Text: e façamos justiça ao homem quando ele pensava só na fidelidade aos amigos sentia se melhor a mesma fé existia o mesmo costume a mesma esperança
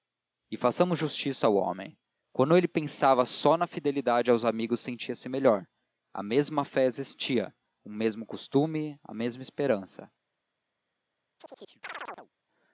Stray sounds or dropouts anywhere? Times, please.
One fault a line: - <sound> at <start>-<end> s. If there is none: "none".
- chirp at 11.4-12.3 s